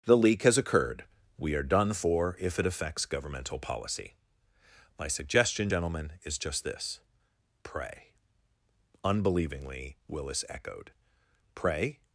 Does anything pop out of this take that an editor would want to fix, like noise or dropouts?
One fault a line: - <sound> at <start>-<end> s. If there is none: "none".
none